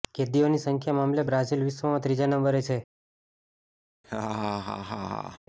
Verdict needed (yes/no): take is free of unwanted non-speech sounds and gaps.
no